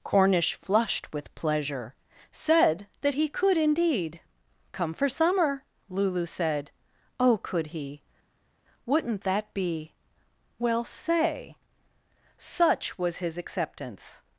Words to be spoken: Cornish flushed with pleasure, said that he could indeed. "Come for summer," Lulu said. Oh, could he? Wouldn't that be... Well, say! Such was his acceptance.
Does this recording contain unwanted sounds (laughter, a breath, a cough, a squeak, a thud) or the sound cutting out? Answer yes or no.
no